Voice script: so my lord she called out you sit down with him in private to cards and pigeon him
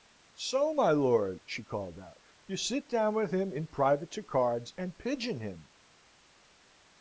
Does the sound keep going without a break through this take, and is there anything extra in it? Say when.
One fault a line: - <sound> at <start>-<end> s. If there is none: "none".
none